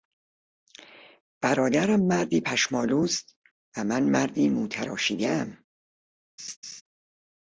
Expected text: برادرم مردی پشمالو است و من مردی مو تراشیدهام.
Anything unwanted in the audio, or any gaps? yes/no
yes